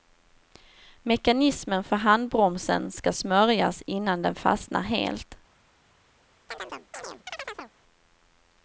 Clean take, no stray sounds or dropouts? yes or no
no